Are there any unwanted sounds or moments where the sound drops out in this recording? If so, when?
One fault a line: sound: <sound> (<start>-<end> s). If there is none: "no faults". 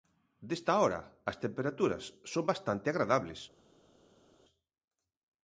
no faults